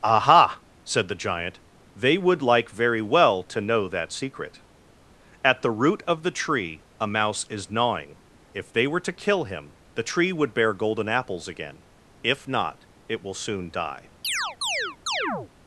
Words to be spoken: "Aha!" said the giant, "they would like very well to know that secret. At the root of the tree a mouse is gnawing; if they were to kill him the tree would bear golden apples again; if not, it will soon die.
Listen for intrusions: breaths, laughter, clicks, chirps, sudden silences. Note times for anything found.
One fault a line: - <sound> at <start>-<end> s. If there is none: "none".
- chirp at 14.2-15.5 s